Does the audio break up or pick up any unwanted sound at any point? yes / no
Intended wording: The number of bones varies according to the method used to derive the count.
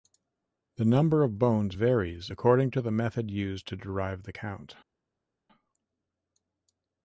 no